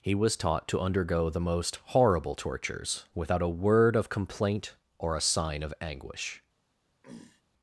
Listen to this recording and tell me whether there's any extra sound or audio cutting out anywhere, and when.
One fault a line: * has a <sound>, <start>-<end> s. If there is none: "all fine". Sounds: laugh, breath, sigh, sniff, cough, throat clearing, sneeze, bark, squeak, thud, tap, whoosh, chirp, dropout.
* has a throat clearing, 7.0-7.4 s